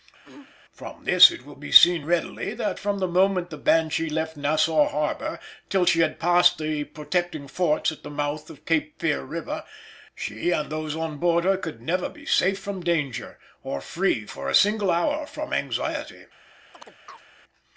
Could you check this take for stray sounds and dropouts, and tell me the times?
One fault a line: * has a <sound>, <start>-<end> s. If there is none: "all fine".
* has a throat clearing, 0.2-0.6 s
* has a chirp, 16.7-17.3 s